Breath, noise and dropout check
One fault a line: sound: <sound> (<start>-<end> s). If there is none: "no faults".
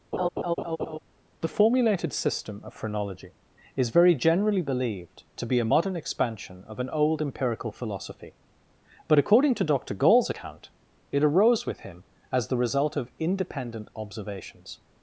sound: laugh (0.1-1.0 s)